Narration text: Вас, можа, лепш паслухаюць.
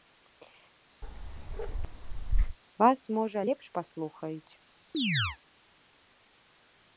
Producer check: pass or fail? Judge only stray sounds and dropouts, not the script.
fail